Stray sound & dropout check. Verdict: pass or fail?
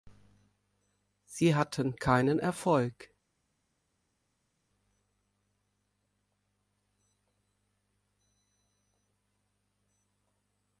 pass